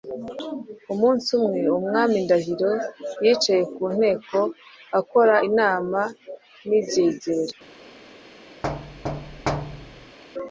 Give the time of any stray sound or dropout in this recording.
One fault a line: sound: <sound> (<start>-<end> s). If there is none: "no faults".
sound: thud (8.6-10.2 s)